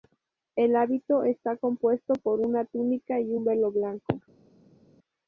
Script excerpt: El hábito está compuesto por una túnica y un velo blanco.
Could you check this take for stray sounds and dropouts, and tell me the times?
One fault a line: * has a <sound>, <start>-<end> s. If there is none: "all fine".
all fine